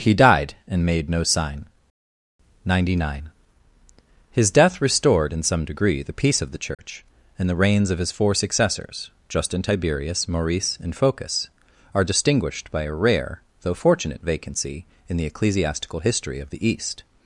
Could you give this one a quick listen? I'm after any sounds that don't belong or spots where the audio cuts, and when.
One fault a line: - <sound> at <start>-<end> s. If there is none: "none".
- dropout at 6.7-6.8 s